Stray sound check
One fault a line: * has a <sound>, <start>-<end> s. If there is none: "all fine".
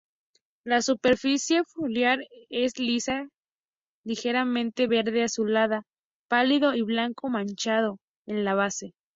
all fine